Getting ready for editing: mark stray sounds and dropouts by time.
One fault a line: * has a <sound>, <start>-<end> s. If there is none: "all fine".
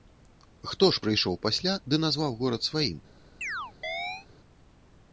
* has a chirp, 3.4-4.3 s